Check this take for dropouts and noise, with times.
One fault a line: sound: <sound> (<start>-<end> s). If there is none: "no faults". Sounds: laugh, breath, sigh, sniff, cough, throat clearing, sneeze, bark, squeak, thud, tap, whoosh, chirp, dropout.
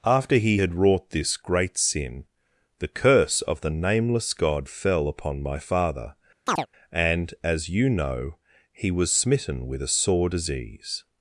sound: chirp (6.5-6.7 s)